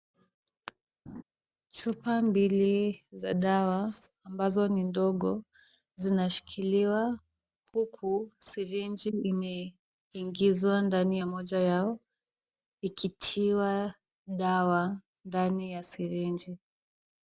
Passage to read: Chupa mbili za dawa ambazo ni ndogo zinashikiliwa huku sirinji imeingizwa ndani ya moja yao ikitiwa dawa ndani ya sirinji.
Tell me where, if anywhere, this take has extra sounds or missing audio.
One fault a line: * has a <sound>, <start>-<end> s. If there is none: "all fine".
* has a laugh, 1.1-1.2 s